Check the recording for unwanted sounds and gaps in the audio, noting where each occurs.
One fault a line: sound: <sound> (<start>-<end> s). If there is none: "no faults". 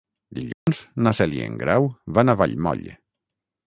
sound: dropout (0.5-0.7 s)